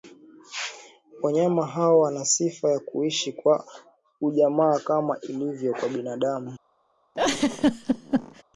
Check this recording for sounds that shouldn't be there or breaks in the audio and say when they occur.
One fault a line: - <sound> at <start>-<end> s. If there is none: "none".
- laugh at 7.1-8.4 s